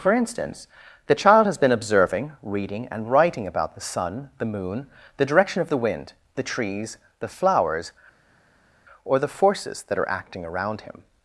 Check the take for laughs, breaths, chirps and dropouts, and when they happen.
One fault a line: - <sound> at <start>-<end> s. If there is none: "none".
none